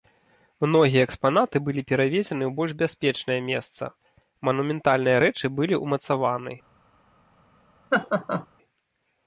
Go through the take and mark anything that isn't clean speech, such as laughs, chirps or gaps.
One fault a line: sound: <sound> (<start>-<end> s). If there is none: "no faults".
sound: laugh (7.9-8.5 s)